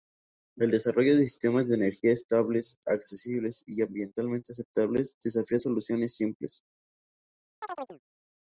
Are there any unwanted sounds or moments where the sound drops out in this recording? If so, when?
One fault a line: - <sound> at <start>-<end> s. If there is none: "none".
- chirp at 7.6-8.0 s